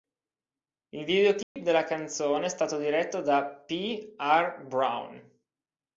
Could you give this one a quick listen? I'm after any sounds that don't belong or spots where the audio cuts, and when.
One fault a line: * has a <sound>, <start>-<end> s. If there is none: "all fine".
* has a dropout, 1.4-1.6 s